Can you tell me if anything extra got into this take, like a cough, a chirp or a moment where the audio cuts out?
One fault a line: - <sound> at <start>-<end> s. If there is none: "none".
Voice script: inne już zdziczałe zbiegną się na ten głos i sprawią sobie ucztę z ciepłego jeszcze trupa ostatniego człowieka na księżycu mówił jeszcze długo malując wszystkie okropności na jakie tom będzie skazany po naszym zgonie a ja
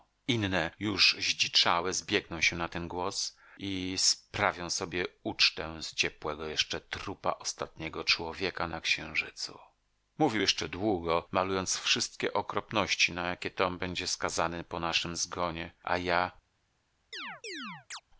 - chirp at 17.1-18.0 s